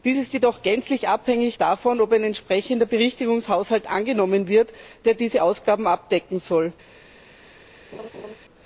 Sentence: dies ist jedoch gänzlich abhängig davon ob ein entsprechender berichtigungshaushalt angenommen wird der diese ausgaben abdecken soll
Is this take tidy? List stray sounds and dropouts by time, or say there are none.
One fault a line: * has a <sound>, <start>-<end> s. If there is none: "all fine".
* has a laugh, 7.9-8.3 s